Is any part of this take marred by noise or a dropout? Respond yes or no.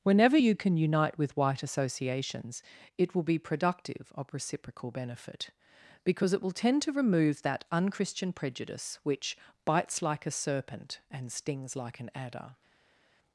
no